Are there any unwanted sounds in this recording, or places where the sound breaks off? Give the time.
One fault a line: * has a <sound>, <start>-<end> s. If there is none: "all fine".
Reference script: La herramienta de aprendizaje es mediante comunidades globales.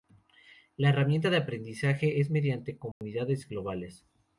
* has a dropout, 2.9-3.0 s